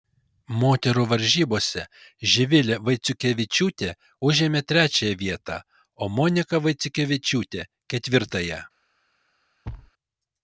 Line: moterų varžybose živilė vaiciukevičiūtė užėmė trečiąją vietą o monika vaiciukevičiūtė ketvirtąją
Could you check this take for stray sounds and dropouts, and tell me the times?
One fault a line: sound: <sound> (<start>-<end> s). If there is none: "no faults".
sound: thud (9.6-9.9 s)